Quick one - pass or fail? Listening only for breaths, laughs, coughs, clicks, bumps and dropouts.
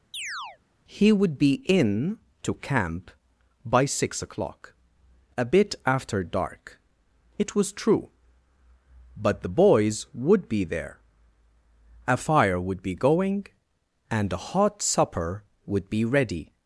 fail